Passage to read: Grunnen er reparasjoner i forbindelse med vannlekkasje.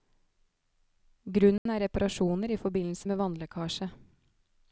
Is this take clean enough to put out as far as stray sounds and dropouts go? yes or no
no